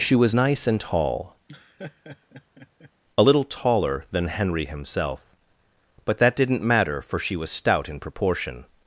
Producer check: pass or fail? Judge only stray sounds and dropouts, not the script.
fail